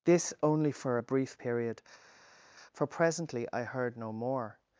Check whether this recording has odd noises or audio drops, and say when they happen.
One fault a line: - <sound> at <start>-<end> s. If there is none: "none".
none